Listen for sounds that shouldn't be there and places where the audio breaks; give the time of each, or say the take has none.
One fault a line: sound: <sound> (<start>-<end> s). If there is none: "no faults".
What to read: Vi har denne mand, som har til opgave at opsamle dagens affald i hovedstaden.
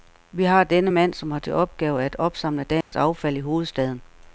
sound: dropout (2.8-2.9 s)